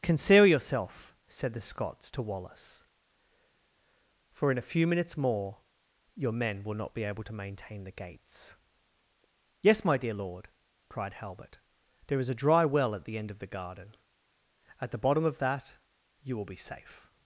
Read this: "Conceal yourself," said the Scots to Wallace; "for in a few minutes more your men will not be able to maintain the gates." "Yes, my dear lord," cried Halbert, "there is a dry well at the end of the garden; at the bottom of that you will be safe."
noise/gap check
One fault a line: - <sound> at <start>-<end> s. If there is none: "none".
none